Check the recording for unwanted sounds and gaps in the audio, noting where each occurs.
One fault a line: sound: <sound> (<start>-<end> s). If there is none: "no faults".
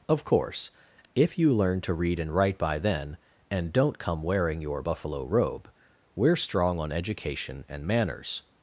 no faults